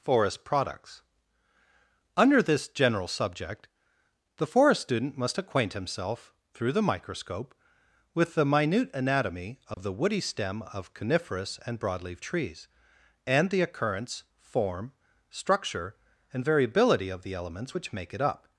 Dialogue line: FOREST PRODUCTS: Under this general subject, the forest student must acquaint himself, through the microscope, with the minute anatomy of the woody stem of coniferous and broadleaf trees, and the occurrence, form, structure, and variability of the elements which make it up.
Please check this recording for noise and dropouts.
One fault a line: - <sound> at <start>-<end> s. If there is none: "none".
- dropout at 9.7-9.8 s